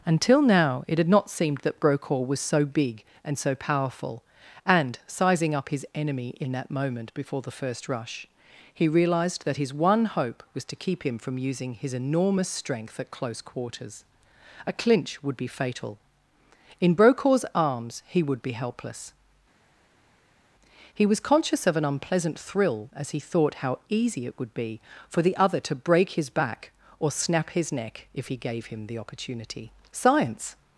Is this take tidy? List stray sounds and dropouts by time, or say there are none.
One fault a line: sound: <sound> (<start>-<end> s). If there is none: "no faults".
no faults